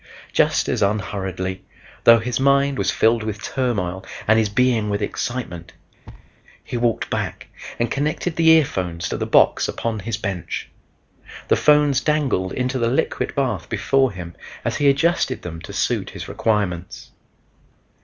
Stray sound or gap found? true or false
true